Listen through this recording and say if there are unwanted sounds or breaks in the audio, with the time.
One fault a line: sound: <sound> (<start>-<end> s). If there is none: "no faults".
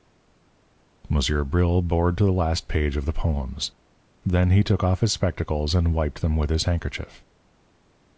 no faults